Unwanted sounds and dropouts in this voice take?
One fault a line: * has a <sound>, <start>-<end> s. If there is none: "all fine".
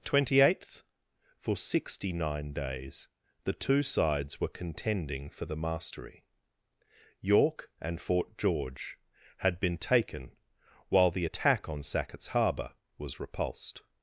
all fine